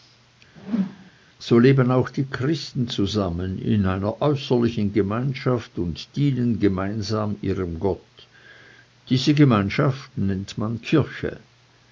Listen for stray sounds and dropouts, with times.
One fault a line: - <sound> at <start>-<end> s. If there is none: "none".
- whoosh at 0.5-1.1 s